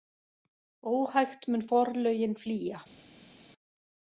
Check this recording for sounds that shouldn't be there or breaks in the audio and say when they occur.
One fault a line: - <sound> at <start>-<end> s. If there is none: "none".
none